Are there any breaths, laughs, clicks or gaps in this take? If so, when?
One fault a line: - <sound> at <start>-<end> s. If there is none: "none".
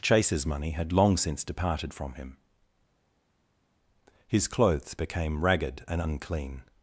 none